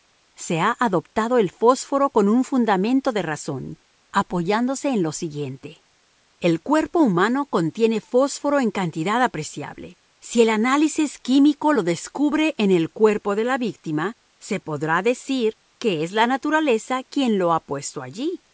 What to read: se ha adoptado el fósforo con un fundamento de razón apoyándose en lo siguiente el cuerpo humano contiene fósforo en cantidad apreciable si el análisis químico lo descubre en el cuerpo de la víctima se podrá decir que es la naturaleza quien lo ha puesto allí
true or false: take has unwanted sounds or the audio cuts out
false